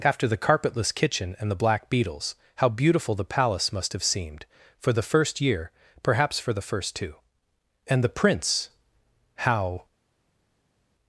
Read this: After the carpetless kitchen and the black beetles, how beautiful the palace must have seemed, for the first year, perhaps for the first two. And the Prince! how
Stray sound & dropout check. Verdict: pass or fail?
pass